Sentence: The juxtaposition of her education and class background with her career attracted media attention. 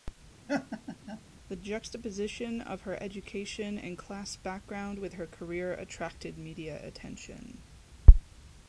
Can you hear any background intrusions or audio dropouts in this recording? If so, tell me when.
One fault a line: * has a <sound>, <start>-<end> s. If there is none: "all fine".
* has a laugh, 0.5-1.2 s